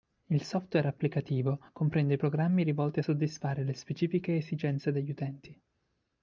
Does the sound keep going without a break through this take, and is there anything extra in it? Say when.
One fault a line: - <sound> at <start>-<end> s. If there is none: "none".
none